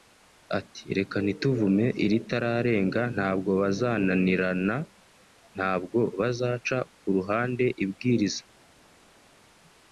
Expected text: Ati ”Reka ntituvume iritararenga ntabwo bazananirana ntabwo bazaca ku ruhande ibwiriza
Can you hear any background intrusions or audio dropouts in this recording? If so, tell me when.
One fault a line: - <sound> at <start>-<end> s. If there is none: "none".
none